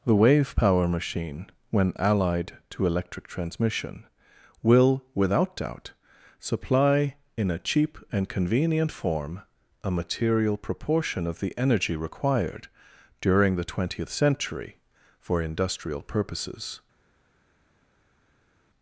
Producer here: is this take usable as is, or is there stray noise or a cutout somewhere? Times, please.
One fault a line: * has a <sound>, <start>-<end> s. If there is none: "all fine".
all fine